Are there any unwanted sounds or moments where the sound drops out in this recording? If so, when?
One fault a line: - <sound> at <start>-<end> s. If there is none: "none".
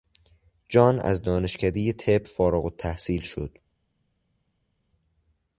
none